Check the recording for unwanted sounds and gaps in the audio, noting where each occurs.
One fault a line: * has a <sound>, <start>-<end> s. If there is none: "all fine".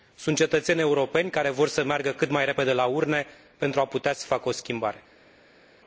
all fine